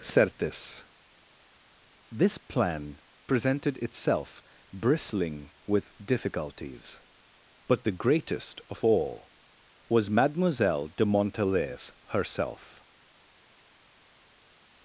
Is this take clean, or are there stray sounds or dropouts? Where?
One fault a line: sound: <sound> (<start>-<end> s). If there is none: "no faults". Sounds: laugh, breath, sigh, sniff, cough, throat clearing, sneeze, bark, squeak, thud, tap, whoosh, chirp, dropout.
no faults